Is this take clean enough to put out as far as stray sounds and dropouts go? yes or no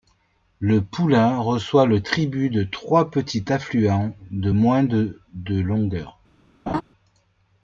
no